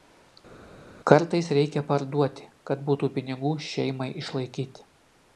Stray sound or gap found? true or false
false